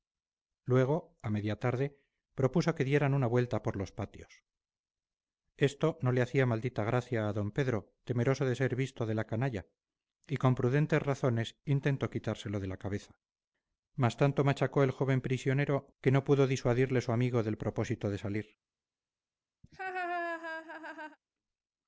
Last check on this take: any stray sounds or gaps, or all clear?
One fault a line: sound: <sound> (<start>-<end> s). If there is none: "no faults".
sound: laugh (19.6-21.2 s)